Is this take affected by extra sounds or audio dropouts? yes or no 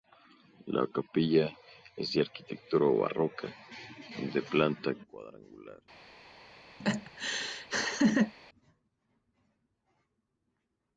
yes